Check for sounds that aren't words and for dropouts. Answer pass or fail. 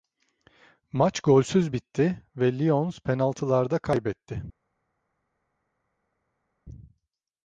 pass